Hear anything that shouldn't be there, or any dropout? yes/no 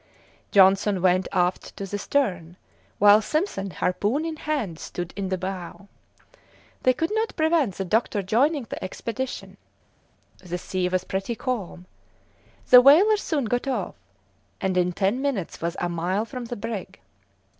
no